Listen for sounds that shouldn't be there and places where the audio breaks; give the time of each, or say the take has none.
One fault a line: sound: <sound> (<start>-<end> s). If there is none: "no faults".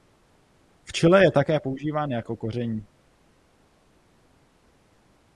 no faults